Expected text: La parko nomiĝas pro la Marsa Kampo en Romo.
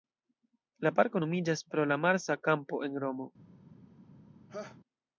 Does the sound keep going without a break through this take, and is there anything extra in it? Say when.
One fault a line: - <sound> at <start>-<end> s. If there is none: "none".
- laugh at 4.5-4.8 s